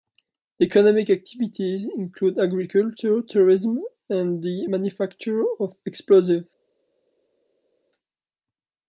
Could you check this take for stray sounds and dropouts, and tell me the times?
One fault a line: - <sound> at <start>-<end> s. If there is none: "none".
none